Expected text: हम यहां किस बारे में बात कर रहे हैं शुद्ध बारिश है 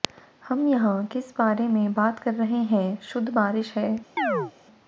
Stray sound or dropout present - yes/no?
yes